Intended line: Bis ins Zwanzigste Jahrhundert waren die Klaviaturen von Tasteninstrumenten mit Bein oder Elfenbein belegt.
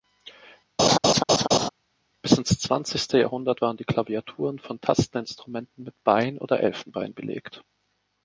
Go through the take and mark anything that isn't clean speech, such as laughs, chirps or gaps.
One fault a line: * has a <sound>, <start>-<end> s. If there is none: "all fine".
* has a laugh, 0.8-1.7 s